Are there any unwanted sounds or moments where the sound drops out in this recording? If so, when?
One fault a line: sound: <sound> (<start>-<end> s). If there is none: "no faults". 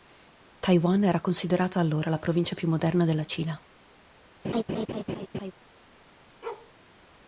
sound: laugh (4.4-5.5 s)
sound: bark (6.4-6.7 s)